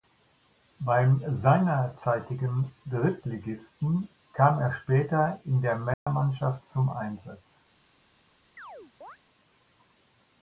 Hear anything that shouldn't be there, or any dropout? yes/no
yes